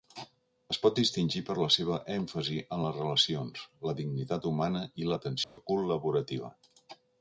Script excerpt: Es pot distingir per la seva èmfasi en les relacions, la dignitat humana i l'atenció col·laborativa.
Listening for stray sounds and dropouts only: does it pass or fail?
fail